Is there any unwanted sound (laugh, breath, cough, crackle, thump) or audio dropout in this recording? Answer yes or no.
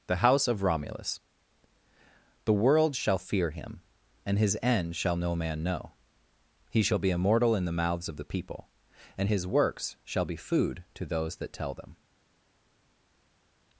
no